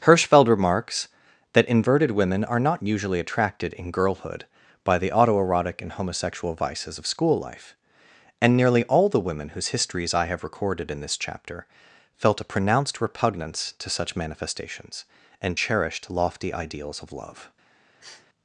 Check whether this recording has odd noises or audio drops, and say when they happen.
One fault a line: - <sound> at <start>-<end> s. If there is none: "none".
- sniff at 18.0-18.3 s